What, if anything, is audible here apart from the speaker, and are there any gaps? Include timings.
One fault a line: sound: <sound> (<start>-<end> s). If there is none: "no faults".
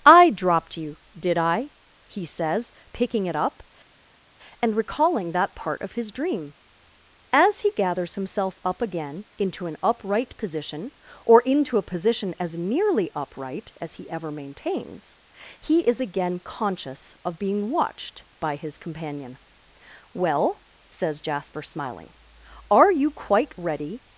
no faults